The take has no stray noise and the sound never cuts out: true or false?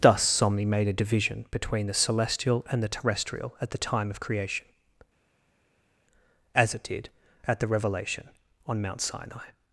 true